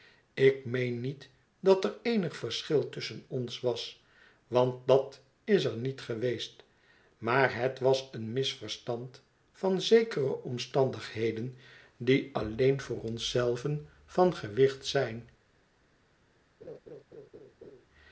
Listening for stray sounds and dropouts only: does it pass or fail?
fail